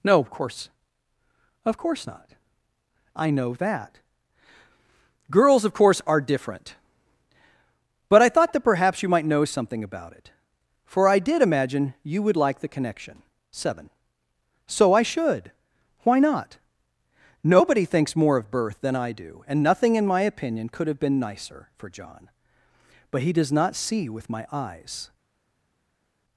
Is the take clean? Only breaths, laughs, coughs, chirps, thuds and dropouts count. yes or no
yes